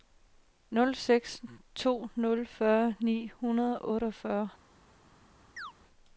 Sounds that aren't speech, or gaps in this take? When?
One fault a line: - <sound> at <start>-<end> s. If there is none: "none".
- chirp at 5.6-5.7 s